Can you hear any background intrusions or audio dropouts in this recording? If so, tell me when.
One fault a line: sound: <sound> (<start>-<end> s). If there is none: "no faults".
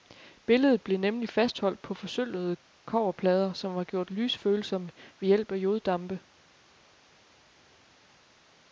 no faults